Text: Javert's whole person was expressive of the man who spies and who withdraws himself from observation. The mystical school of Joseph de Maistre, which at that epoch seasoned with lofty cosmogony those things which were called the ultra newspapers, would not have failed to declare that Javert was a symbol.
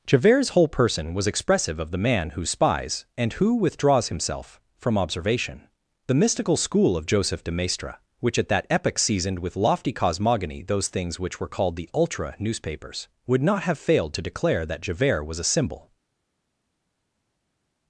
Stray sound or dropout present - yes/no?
no